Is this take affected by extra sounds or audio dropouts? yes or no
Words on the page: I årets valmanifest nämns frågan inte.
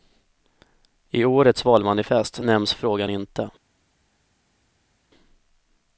no